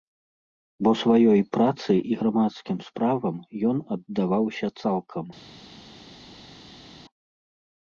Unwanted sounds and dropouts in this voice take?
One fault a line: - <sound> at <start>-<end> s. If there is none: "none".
none